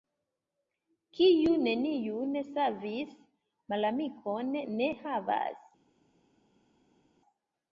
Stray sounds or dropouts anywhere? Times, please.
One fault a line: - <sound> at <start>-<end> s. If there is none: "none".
none